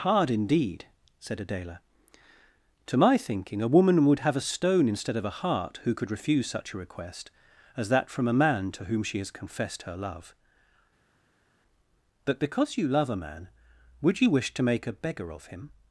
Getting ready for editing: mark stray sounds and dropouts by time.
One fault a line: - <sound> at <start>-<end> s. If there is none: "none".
none